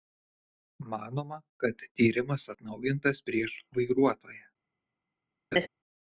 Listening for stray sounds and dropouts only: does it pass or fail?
fail